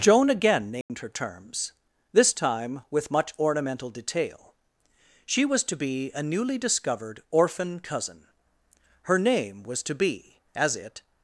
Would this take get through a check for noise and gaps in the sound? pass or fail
fail